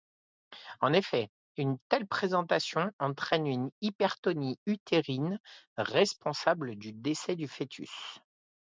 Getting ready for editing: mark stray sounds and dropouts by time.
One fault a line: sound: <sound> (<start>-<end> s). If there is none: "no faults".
no faults